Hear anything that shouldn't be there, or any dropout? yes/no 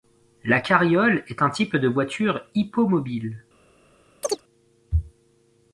yes